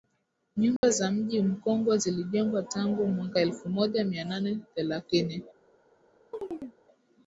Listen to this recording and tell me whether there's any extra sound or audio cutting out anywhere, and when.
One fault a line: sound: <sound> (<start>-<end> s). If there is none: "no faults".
sound: dropout (0.8-0.8 s)
sound: chirp (6.3-6.8 s)